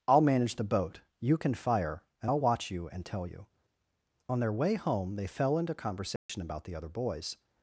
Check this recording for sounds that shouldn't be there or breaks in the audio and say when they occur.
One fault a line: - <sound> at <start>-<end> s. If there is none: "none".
- dropout at 6.2-6.3 s